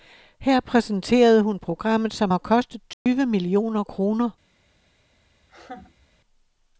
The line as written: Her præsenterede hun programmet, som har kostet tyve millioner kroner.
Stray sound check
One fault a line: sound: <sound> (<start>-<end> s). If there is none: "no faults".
sound: dropout (2.9-3.1 s)
sound: laugh (5.4-6.1 s)